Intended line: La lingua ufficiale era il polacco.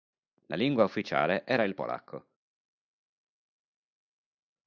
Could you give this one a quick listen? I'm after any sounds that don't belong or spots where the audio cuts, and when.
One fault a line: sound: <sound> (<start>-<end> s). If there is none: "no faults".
no faults